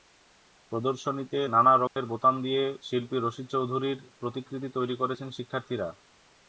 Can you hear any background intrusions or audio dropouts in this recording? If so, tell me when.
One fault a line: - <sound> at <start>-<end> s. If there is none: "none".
- dropout at 1.9-2.0 s